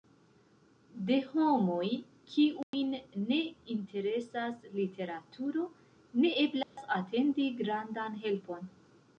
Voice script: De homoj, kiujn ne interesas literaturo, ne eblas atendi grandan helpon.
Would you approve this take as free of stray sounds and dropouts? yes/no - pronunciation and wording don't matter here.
no